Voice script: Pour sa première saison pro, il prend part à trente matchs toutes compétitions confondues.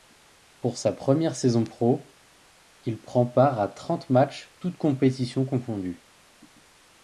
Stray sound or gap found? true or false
false